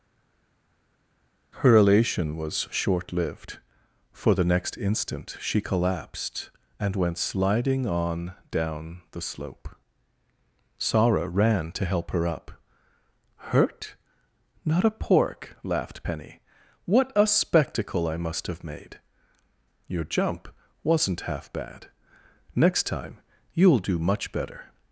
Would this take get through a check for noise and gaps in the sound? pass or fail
pass